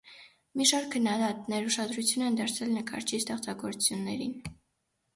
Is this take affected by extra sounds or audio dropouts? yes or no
no